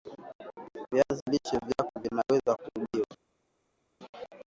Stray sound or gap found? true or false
false